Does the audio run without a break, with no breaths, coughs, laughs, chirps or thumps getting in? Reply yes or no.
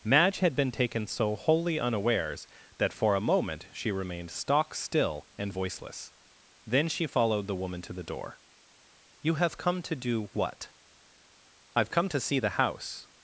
yes